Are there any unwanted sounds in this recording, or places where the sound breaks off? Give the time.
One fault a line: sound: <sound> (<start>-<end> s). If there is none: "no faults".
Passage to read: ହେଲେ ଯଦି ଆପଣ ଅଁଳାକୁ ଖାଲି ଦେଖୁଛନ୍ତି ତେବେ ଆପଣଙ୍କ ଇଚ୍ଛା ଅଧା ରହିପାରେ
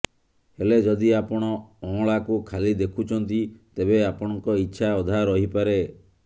no faults